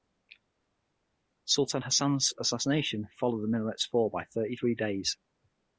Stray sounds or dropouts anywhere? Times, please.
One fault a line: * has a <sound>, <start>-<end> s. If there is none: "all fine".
all fine